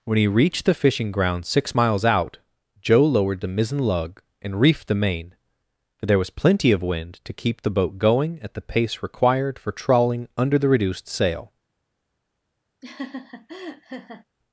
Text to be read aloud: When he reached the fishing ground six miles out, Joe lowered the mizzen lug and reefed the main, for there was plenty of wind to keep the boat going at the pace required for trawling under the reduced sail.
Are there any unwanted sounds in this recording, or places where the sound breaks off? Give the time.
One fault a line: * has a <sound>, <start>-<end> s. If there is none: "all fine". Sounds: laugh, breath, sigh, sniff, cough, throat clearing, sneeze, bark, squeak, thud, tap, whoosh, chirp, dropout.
* has a laugh, 12.8-14.2 s